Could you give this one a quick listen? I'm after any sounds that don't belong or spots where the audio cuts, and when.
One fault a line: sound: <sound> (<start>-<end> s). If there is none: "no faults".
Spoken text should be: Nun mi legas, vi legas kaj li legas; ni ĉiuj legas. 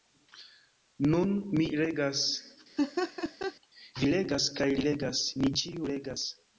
sound: laugh (2.8-3.5 s)